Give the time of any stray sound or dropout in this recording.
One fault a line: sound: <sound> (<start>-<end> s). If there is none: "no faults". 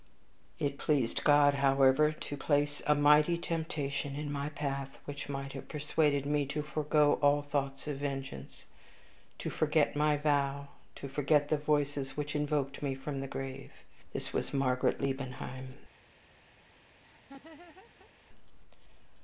sound: laugh (17.0-18.1 s)